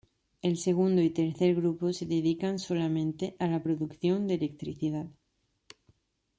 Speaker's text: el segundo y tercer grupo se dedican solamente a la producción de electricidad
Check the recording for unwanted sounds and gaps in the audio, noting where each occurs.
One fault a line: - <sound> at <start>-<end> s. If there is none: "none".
none